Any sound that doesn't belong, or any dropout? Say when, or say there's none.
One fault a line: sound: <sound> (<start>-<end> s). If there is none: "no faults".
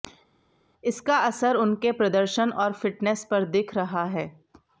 no faults